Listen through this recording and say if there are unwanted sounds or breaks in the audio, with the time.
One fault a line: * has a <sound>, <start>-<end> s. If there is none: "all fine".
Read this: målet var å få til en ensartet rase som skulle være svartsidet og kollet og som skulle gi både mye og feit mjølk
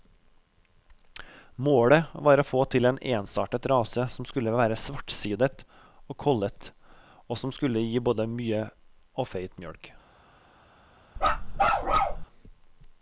* has a bark, 11.2-12.3 s